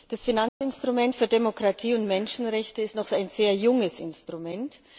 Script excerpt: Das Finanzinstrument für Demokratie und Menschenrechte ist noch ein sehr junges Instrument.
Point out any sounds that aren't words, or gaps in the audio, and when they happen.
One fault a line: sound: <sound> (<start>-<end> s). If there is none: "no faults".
sound: dropout (0.5-0.6 s)